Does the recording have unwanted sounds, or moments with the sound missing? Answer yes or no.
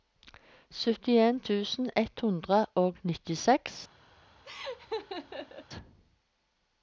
yes